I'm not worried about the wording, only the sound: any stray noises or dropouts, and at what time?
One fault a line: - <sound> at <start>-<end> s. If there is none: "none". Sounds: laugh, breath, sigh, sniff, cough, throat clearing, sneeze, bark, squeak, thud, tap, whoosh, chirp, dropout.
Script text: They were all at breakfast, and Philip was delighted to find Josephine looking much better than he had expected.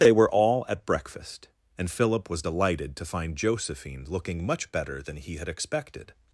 none